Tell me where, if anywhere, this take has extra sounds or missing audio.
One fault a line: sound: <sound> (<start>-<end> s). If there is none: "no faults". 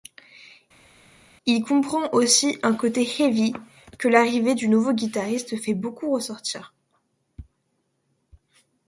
no faults